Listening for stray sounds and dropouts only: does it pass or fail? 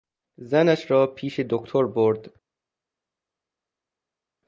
pass